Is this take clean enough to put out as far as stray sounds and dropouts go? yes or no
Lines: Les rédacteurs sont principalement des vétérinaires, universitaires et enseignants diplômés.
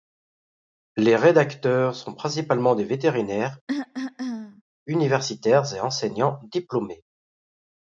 no